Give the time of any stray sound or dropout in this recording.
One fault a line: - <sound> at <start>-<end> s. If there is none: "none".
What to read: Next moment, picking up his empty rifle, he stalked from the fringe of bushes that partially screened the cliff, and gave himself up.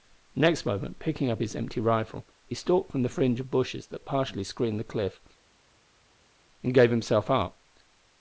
none